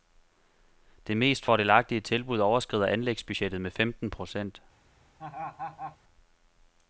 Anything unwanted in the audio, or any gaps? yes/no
yes